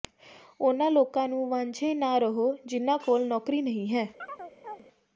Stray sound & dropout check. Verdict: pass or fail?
fail